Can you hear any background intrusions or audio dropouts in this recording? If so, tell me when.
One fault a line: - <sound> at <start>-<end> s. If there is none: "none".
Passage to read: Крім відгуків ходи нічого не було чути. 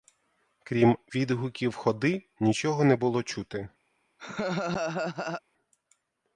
- laugh at 4.2-5.4 s